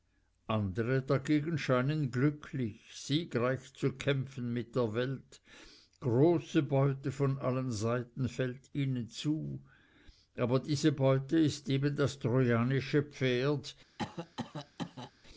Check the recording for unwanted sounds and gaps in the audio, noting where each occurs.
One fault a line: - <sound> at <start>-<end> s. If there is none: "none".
- cough at 14.0-15.1 s